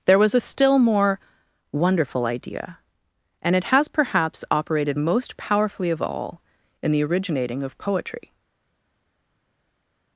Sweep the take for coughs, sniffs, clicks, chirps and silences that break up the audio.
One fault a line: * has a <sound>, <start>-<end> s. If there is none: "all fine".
all fine